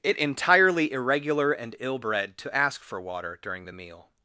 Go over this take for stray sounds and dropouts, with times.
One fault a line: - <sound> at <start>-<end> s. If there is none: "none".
none